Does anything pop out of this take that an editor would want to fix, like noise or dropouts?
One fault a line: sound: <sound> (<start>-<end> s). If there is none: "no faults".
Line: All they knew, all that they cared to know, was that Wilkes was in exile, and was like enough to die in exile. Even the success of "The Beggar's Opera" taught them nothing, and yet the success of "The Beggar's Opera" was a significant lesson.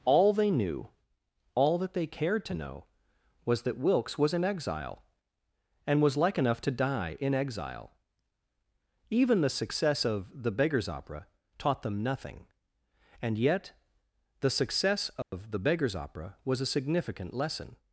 sound: dropout (15.2-15.3 s)